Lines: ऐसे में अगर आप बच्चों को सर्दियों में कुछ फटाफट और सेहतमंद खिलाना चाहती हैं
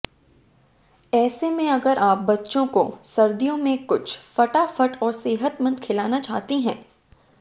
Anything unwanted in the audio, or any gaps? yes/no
no